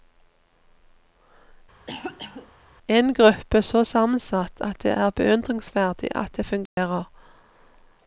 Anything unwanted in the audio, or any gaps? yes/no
yes